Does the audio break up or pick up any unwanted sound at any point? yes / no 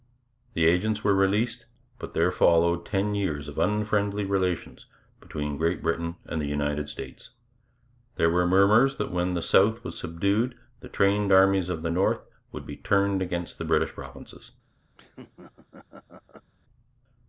yes